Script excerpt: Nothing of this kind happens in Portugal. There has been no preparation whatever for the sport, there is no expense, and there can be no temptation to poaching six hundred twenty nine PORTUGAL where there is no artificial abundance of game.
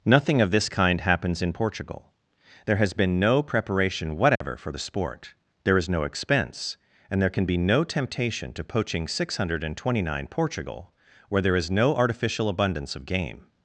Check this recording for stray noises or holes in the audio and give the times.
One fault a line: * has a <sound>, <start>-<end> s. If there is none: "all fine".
* has a dropout, 4.4-4.4 s